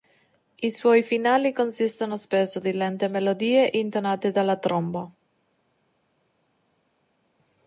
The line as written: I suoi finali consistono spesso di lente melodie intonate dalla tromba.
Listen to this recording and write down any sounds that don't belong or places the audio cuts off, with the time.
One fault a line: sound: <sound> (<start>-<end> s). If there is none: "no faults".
no faults